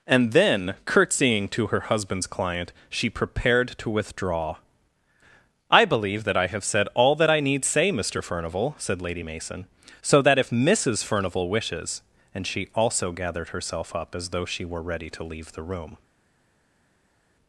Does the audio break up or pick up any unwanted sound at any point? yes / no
no